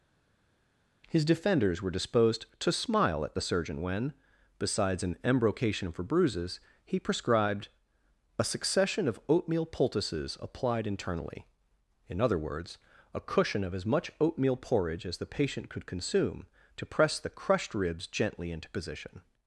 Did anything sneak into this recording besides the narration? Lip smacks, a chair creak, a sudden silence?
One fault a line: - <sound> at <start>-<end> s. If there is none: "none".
none